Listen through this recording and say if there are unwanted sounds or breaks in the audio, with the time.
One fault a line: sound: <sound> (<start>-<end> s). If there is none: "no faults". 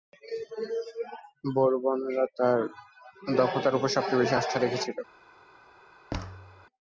sound: thud (6.1-6.7 s)